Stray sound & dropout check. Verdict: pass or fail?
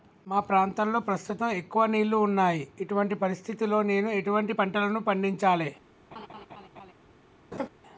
fail